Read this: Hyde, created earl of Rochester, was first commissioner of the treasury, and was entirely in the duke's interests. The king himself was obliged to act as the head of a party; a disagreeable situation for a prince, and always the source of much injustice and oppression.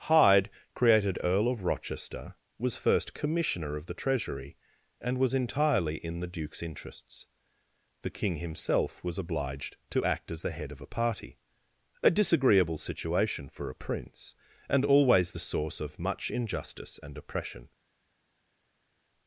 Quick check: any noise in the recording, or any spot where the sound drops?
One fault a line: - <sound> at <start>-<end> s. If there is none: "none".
none